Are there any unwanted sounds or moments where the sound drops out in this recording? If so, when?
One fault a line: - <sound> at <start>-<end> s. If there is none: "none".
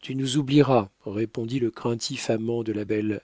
none